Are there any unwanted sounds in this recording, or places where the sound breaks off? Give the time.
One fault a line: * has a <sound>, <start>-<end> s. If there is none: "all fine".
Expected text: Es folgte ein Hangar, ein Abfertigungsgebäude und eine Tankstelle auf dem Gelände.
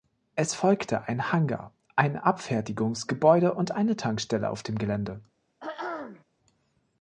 * has a throat clearing, 5.6-6.2 s